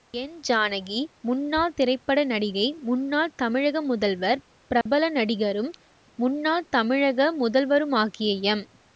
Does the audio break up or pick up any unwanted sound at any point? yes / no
yes